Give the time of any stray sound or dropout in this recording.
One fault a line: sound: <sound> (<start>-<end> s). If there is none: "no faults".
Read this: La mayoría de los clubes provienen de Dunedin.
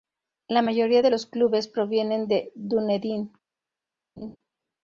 sound: laugh (4.2-4.4 s)